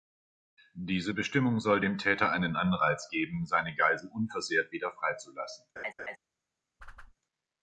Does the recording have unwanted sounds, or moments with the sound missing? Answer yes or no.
yes